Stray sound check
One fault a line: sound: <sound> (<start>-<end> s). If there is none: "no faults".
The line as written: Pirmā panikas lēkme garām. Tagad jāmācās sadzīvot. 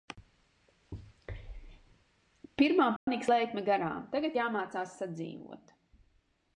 sound: dropout (3.0-3.1 s)